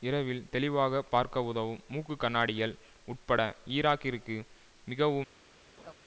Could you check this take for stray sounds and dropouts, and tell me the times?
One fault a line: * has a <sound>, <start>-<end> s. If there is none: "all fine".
* has a laugh, 5.8-5.9 s